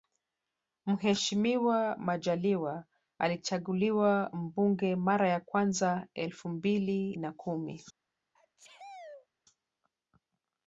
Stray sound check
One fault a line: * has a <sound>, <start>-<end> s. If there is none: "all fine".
* has a sneeze, 8.3-9.3 s